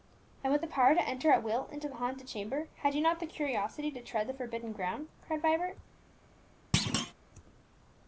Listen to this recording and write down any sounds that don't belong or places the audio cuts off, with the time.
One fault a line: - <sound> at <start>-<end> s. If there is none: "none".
- thud at 6.7-7.1 s